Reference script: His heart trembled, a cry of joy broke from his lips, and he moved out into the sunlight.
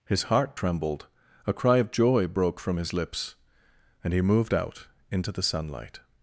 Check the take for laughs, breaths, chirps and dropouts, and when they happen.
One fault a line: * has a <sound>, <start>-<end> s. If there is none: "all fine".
all fine